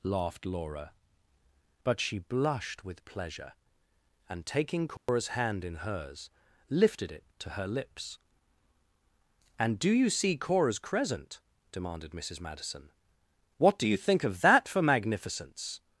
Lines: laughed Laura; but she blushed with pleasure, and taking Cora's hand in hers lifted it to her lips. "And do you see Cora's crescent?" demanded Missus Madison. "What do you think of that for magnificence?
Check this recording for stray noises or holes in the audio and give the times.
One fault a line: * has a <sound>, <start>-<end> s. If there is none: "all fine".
* has a dropout, 5.0-5.1 s